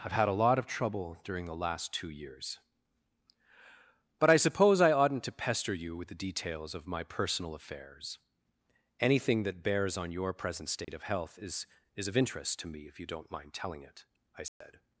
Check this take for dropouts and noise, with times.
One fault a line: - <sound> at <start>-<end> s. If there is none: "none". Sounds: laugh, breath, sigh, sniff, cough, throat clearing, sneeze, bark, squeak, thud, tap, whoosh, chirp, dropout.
- dropout at 10.8-10.9 s
- dropout at 14.5-14.6 s